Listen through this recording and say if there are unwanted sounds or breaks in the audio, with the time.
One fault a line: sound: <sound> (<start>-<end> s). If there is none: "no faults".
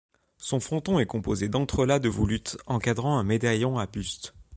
no faults